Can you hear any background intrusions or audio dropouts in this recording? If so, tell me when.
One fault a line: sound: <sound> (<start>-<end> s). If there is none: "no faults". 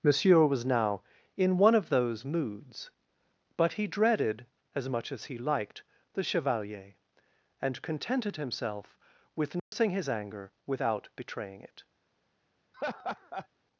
sound: dropout (9.6-9.7 s)
sound: laugh (12.7-13.5 s)